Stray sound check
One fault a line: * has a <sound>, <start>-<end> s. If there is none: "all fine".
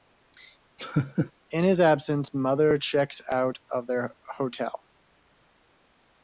* has a laugh, 0.8-1.3 s